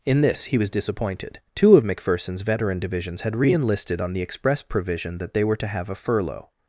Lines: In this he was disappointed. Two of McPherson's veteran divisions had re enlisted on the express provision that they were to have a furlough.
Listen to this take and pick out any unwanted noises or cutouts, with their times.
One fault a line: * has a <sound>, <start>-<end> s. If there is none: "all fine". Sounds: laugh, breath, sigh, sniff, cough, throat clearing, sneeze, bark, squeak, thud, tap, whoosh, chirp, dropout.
all fine